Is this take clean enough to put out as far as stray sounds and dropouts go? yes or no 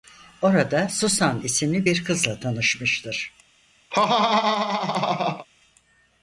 no